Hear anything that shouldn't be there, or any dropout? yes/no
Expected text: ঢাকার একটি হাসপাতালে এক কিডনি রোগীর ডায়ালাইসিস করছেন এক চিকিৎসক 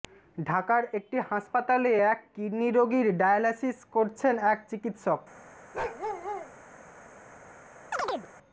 yes